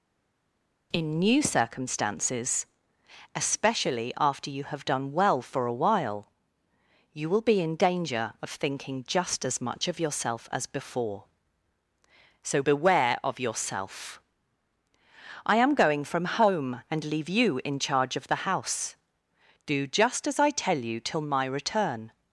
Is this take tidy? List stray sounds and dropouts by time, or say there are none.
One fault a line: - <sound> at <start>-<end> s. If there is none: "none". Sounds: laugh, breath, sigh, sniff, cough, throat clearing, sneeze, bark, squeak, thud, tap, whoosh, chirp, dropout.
none